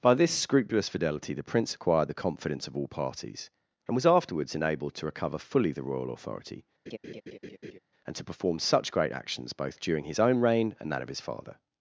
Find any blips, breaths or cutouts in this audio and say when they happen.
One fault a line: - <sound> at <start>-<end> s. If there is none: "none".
- laugh at 6.9-7.8 s